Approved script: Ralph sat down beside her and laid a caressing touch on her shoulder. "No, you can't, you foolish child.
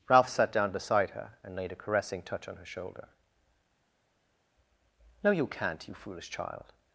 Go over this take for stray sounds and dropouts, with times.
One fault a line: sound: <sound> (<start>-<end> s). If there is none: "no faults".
no faults